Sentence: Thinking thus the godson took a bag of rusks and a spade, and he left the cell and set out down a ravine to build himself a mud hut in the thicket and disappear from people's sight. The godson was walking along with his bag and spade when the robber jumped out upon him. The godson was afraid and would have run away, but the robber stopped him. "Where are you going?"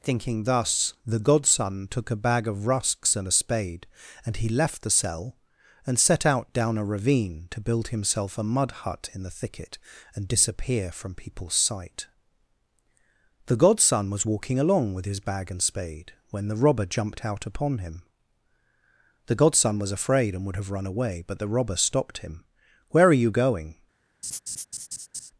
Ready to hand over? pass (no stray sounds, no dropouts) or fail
fail